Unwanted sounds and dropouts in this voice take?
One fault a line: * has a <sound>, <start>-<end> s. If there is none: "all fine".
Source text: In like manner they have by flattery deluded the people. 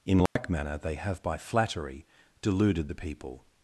* has a dropout, 0.3-0.4 s